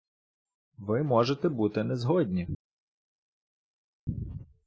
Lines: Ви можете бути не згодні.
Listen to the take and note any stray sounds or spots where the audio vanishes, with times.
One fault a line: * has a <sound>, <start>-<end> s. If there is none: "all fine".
all fine